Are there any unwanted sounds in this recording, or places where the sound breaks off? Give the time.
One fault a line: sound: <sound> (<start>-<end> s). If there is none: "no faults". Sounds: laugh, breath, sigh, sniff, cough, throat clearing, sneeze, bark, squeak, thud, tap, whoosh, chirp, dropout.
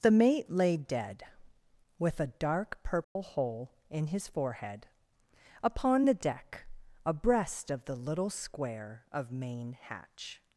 sound: dropout (3.0-3.2 s)